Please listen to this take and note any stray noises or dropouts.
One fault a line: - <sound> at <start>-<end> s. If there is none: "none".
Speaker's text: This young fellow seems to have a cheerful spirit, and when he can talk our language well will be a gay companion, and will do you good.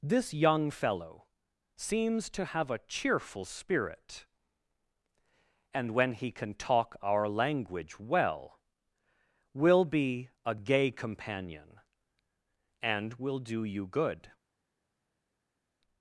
none